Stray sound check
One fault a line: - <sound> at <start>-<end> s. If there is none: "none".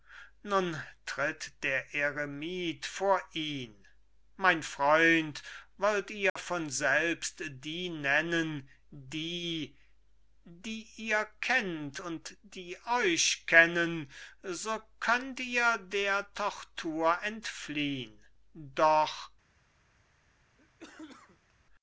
- dropout at 6.3-6.4 s
- cough at 20.6-21.5 s